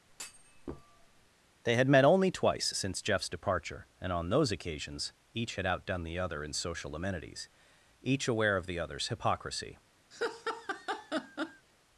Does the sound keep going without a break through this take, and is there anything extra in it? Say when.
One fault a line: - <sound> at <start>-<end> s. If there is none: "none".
- thud at 0.1-1.3 s
- laugh at 10.1-11.7 s